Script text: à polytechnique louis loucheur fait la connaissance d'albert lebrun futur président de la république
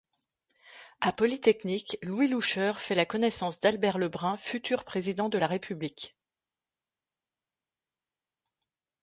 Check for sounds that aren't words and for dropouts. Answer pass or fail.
pass